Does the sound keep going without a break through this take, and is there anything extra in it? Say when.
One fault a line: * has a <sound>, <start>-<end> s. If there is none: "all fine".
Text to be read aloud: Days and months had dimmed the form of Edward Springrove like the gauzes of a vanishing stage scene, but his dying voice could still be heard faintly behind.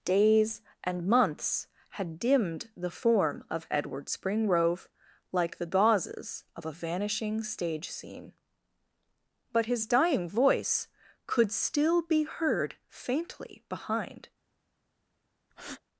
* has a breath, 15.5-15.8 s